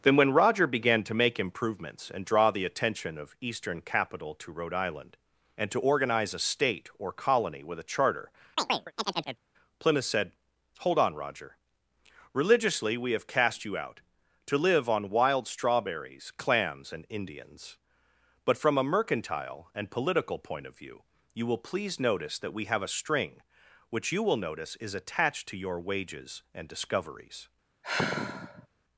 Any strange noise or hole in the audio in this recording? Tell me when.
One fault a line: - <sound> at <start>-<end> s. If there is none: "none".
- chirp at 8.6-9.4 s
- sigh at 27.8-28.7 s